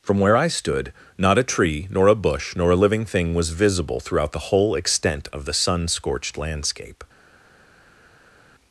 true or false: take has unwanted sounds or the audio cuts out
false